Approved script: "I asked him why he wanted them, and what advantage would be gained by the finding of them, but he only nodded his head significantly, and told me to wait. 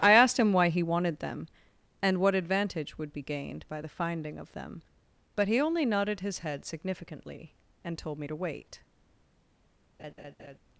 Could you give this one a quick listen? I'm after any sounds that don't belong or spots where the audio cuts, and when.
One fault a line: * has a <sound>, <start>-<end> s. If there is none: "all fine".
* has a laugh, 10.0-10.6 s